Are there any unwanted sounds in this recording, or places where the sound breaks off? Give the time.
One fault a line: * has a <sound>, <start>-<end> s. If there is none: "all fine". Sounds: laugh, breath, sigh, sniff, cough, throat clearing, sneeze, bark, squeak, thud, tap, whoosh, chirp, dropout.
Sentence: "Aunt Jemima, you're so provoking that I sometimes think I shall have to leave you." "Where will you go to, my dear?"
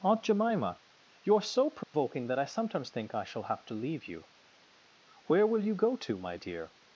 * has a dropout, 1.8-1.9 s